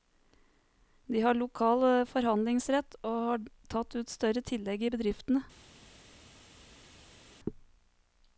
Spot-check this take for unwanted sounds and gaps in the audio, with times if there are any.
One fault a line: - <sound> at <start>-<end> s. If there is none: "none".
none